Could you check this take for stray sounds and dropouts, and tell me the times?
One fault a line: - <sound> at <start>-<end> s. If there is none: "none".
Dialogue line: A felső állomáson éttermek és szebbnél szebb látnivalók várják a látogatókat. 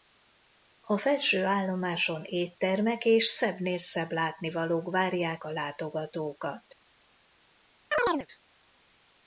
- chirp at 7.9-8.3 s